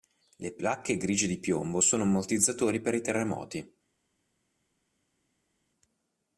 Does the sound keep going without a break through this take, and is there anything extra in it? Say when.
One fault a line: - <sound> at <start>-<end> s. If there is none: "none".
none